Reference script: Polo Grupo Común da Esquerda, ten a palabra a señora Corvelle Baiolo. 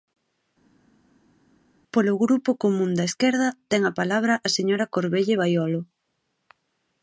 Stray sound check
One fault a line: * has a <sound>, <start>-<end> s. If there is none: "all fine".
all fine